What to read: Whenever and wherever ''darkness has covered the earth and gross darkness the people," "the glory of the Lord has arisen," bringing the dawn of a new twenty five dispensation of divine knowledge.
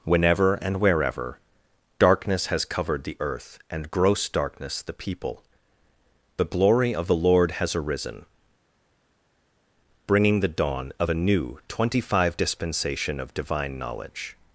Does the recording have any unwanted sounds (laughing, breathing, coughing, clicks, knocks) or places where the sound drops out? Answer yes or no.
no